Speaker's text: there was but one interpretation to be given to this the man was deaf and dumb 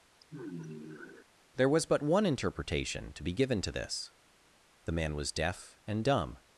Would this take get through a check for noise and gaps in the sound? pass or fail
fail